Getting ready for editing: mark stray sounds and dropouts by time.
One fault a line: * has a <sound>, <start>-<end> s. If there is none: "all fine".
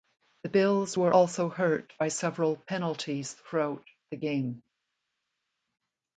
all fine